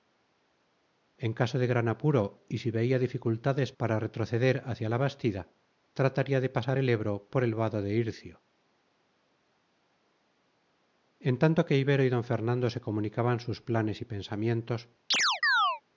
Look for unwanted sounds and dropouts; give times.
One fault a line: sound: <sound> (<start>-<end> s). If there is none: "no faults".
sound: chirp (15.1-15.8 s)